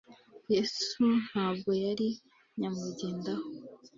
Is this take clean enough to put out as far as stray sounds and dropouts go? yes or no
yes